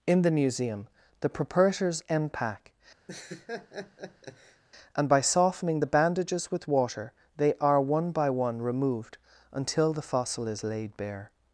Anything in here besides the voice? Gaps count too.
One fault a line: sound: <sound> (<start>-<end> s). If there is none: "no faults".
sound: laugh (3.1-4.6 s)